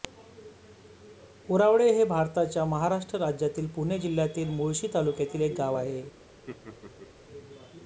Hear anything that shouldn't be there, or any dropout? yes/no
yes